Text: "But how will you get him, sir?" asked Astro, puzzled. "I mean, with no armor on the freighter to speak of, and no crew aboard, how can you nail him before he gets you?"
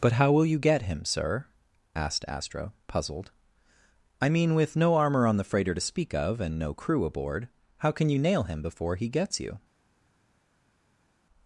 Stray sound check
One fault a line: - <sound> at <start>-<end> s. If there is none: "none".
none